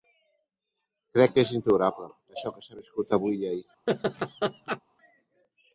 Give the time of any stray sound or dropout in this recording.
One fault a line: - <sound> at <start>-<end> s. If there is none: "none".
- laugh at 3.9-4.8 s